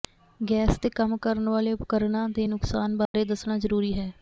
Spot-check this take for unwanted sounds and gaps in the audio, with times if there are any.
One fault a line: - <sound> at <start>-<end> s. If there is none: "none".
- dropout at 3.1-3.1 s